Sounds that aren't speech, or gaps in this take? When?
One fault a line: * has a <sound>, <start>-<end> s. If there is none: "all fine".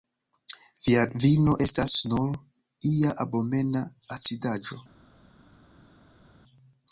all fine